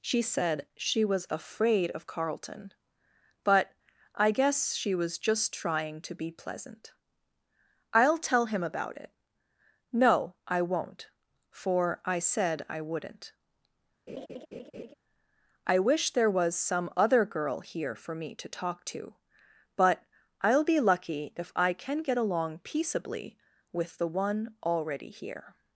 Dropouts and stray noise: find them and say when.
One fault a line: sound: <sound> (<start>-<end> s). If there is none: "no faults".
sound: laugh (14.1-14.9 s)